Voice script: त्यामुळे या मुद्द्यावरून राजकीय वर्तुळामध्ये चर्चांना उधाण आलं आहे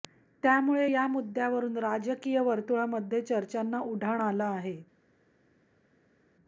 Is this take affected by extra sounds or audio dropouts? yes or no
no